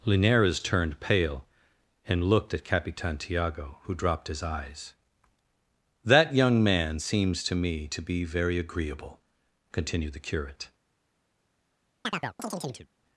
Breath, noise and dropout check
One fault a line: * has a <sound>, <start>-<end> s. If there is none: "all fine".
* has a chirp, 12.0-12.9 s